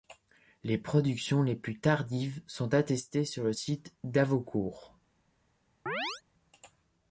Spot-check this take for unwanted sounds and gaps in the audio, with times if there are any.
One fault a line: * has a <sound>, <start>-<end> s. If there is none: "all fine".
* has a chirp, 5.9-6.2 s